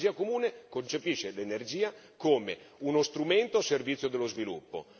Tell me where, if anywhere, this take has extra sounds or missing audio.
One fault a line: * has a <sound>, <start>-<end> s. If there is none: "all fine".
all fine